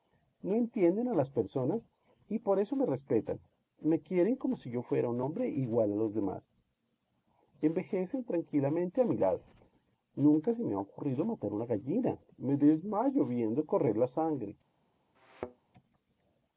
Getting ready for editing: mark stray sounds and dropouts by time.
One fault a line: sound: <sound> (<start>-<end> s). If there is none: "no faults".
sound: thud (15.1-15.7 s)